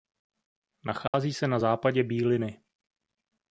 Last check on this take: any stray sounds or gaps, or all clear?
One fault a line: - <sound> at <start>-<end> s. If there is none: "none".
- dropout at 1.1-1.1 s